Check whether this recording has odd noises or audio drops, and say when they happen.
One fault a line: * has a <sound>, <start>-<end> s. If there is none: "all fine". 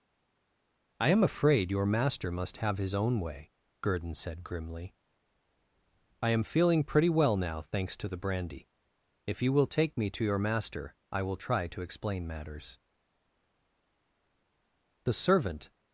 all fine